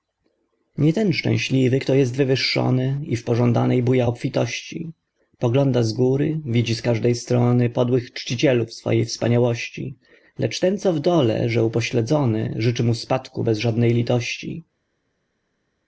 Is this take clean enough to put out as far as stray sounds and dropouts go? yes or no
yes